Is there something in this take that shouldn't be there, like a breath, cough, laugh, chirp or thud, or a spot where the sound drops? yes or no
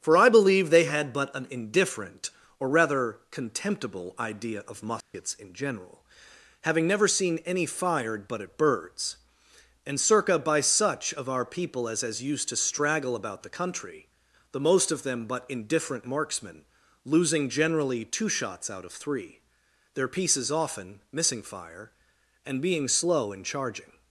yes